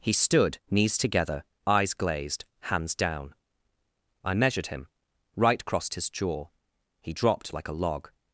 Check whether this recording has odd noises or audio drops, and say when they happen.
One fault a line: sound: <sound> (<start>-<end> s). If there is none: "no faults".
no faults